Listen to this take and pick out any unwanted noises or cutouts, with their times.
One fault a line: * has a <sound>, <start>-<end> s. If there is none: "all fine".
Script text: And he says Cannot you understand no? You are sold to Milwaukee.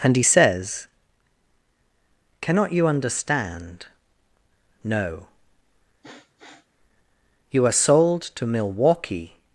* has a sniff, 6.0-6.7 s